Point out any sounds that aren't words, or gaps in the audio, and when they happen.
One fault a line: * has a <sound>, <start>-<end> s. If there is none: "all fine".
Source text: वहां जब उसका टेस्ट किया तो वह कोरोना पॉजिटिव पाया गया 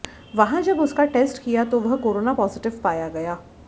all fine